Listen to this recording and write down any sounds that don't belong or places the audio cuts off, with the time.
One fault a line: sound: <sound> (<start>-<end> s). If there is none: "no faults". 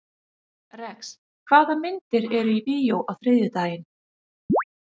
sound: chirp (4.5-4.6 s)